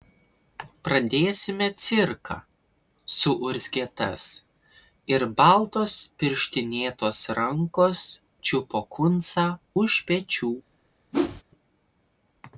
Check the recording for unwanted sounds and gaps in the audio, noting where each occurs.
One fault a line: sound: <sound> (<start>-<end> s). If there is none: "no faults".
sound: whoosh (11.1-11.4 s)